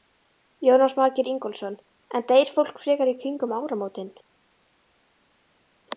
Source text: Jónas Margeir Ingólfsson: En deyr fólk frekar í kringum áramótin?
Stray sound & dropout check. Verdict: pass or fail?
pass